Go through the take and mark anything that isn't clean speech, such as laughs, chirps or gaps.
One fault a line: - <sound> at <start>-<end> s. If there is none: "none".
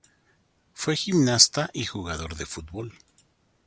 none